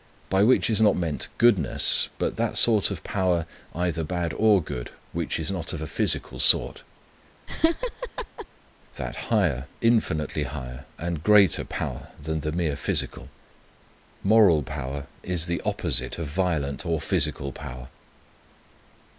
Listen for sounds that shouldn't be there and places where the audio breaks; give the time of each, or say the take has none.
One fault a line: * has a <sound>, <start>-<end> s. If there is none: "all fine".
* has a laugh, 7.5-8.5 s